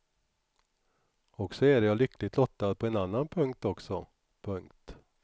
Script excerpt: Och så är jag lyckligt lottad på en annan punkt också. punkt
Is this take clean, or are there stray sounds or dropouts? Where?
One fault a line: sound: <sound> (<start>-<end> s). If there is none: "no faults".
no faults